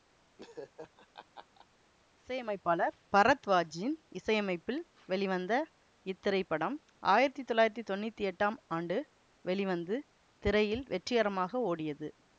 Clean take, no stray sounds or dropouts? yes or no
no